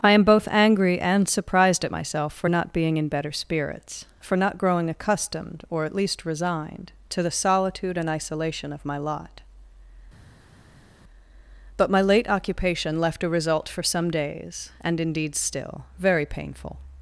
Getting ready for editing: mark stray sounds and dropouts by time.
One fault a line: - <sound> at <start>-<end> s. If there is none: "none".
none